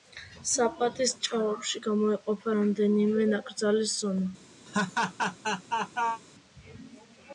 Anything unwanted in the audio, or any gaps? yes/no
yes